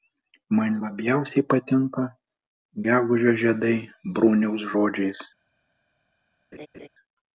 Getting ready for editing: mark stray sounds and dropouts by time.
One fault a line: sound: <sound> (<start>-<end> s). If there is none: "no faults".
sound: laugh (6.5-6.9 s)